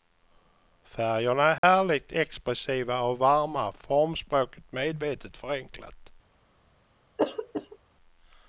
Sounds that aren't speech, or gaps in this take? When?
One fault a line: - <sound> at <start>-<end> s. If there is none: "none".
- dropout at 1.6-1.6 s
- throat clearing at 7.2-7.8 s